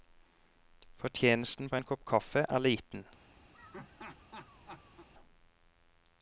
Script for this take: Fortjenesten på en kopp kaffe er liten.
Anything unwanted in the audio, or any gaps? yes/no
yes